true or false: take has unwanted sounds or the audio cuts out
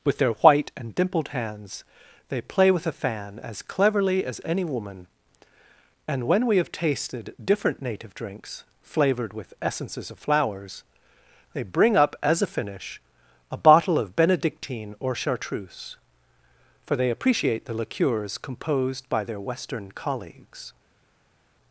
false